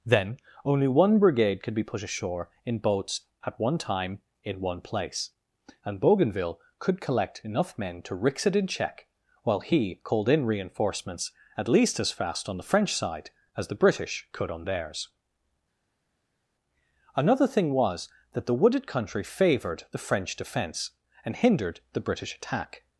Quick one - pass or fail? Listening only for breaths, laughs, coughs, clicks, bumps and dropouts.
pass